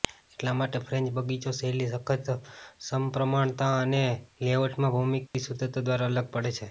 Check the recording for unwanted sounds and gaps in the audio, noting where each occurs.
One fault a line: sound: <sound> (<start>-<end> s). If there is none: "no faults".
sound: dropout (5.3-5.3 s)